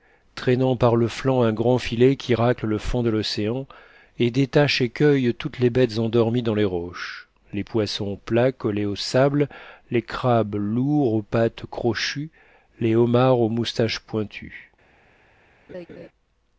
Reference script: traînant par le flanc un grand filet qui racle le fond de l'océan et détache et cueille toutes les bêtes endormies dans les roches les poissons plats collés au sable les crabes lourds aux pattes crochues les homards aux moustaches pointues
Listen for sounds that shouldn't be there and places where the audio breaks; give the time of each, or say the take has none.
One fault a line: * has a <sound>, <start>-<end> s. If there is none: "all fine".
* has a laugh, 15.7-16.1 s